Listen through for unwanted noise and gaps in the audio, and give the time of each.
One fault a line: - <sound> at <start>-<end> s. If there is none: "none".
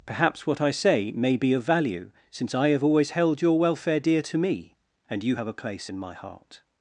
none